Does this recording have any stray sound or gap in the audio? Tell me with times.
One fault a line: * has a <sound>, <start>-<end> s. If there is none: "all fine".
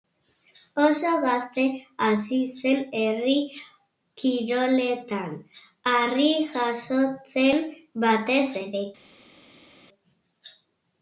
all fine